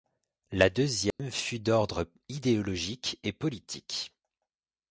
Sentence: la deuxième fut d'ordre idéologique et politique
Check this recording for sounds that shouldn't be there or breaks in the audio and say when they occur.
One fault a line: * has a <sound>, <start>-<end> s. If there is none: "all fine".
* has a dropout, 1.1-1.2 s